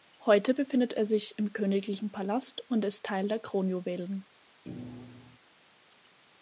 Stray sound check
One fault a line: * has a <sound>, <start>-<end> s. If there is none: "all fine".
* has a thud, 4.6-5.4 s